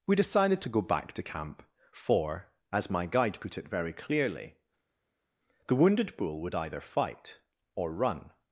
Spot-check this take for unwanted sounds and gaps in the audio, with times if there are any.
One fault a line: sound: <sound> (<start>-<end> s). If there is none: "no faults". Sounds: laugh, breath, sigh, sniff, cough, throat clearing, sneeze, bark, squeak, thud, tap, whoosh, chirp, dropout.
no faults